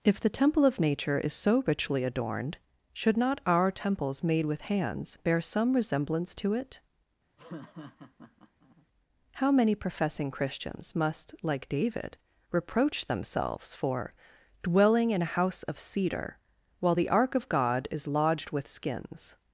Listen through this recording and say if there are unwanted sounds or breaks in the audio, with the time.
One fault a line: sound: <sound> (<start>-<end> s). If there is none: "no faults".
sound: laugh (7.4-8.9 s)